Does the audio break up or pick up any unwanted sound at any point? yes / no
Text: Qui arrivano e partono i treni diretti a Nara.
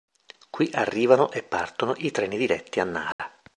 yes